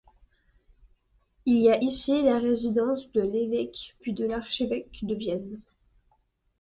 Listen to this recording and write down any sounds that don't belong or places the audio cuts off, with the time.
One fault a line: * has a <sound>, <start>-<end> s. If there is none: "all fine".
all fine